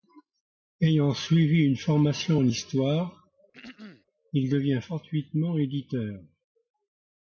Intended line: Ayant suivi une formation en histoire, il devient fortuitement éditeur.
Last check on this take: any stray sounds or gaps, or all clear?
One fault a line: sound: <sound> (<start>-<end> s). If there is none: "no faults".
sound: throat clearing (3.5-4.0 s)